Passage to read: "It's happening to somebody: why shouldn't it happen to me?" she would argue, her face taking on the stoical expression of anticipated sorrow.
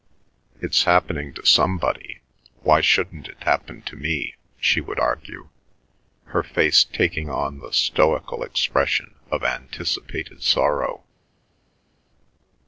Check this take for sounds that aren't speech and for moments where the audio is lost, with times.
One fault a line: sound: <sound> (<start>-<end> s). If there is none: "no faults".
no faults